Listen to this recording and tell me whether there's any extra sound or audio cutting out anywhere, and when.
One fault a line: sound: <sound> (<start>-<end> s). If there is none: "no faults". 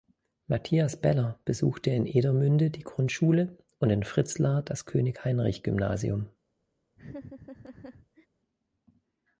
sound: laugh (7.0-8.3 s)